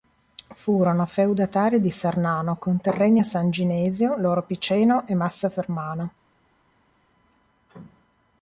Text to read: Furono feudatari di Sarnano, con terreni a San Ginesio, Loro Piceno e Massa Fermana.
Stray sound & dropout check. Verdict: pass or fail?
pass